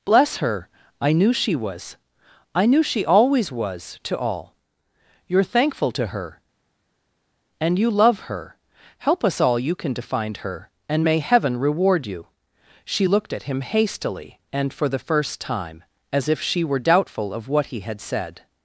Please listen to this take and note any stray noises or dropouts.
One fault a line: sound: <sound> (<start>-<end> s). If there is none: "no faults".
no faults